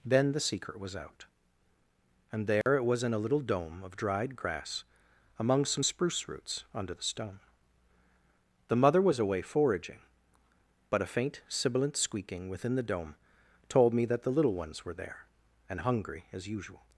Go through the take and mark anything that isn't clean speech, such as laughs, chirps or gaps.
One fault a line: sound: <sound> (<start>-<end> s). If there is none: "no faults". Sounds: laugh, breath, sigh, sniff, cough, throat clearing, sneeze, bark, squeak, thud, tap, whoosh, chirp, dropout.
sound: dropout (2.6-2.7 s)